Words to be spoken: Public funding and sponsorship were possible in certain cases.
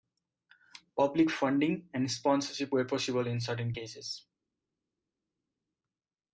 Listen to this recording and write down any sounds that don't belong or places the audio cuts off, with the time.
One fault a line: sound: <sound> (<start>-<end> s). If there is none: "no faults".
no faults